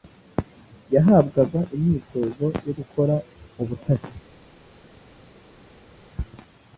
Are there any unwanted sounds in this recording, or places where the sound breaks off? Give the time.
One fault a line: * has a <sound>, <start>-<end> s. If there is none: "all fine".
all fine